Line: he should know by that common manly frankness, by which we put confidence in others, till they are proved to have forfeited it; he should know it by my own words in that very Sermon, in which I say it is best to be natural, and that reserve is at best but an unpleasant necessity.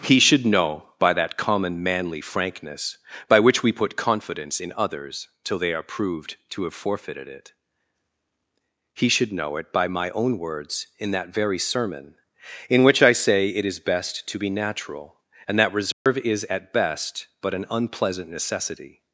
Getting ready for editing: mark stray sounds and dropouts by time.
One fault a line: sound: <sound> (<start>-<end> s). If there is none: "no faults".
sound: dropout (15.9-16.1 s)